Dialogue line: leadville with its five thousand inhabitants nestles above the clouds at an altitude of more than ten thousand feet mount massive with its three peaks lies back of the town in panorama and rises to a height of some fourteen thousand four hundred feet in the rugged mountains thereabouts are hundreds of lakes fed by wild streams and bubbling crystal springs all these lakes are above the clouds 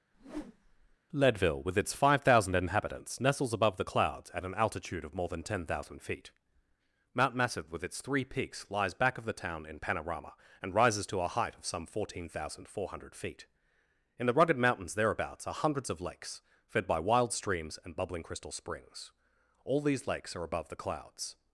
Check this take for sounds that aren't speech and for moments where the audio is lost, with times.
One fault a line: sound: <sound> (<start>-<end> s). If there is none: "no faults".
sound: whoosh (0.1-1.0 s)